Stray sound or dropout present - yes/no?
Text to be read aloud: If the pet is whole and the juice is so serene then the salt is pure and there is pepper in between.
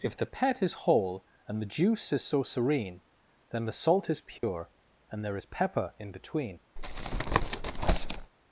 yes